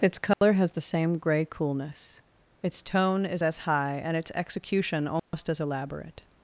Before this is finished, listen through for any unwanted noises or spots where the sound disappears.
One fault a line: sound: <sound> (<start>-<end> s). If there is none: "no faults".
sound: dropout (0.3-0.4 s)
sound: dropout (5.2-5.3 s)